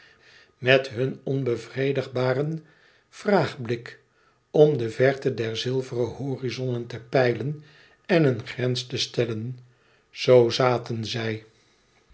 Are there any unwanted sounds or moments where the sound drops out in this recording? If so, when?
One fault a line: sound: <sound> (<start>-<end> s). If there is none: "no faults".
no faults